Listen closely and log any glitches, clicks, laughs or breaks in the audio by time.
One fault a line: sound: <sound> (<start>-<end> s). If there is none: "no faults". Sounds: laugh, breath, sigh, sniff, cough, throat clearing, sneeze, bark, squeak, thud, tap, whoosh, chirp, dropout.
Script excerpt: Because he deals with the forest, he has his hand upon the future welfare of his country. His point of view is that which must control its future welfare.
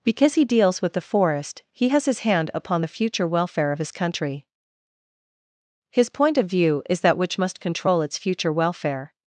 no faults